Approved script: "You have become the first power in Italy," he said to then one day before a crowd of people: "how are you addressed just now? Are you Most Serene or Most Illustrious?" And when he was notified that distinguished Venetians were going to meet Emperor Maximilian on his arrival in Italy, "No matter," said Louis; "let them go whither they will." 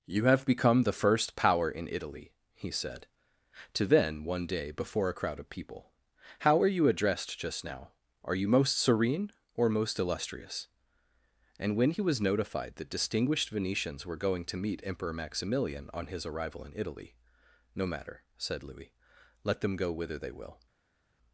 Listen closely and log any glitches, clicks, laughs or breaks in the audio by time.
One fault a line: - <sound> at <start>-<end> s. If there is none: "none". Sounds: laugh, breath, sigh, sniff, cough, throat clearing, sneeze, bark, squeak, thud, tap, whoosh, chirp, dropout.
none